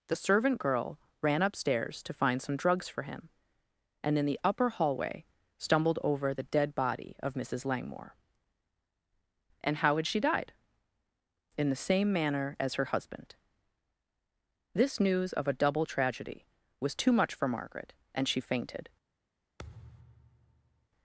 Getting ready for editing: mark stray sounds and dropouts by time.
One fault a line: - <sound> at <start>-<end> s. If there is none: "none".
- thud at 19.6-20.9 s